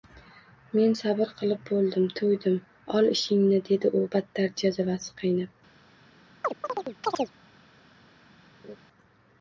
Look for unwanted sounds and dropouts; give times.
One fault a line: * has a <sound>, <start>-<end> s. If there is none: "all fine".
* has a chirp, 6.4-7.3 s
* has a laugh, 8.6-8.8 s